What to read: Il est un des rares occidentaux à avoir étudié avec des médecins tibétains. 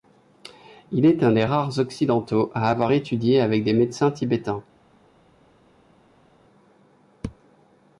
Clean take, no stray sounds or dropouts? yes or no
yes